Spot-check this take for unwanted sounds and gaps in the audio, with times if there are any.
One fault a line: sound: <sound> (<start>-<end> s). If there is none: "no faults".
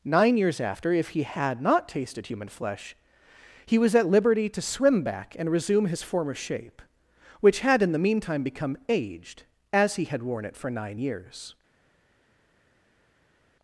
no faults